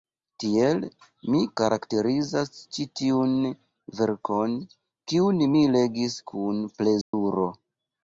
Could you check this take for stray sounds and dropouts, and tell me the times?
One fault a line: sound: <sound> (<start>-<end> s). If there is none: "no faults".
sound: dropout (7.0-7.1 s)